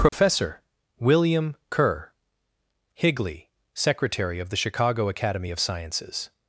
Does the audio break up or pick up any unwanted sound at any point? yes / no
yes